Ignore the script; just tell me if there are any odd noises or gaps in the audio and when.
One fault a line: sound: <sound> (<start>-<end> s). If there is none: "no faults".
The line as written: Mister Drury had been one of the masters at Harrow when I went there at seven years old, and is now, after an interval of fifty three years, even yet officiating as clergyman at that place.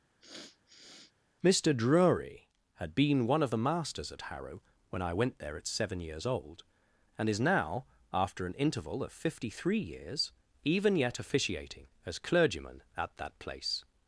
sound: sniff (0.2-1.1 s)